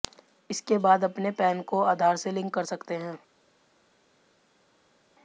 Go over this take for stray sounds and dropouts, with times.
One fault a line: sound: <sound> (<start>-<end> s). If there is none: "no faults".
no faults